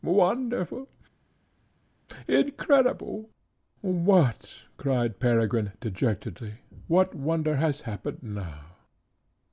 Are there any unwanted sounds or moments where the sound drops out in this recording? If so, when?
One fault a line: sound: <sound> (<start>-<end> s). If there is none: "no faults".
no faults